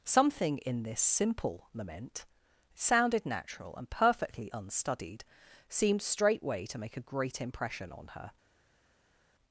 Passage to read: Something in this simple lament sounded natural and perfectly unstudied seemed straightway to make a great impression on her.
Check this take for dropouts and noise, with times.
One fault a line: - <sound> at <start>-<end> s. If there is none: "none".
none